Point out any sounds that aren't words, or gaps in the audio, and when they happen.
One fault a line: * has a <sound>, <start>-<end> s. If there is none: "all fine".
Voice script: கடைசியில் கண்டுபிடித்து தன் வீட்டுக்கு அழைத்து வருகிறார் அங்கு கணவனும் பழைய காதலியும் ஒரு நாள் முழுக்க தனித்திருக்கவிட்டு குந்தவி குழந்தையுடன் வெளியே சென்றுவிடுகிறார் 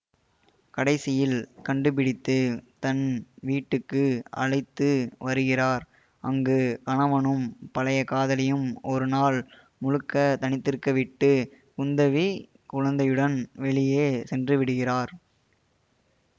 all fine